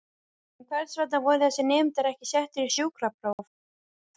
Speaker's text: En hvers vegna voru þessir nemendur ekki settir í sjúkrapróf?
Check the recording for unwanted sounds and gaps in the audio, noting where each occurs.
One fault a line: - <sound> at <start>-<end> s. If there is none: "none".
none